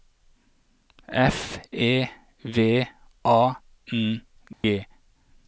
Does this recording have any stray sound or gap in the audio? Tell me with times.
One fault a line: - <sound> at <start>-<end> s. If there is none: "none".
- dropout at 4.5-4.6 s